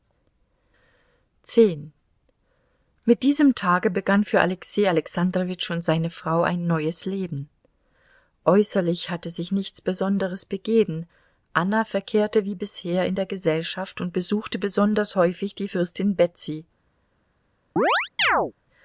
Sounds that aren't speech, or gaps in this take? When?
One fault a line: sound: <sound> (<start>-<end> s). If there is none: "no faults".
sound: chirp (17.8-18.5 s)